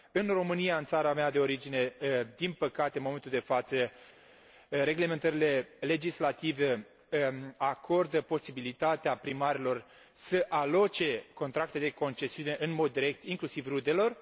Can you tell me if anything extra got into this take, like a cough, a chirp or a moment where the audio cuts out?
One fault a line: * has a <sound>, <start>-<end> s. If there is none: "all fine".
all fine